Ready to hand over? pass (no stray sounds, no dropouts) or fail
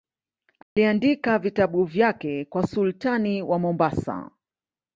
fail